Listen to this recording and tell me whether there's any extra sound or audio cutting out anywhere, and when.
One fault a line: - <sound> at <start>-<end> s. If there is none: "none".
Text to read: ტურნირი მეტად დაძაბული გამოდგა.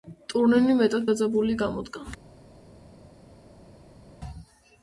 none